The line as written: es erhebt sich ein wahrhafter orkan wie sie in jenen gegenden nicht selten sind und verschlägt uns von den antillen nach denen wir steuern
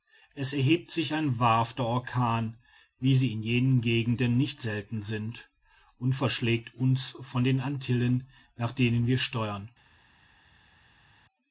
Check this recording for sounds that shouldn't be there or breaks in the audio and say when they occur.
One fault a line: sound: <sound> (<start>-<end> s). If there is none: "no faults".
no faults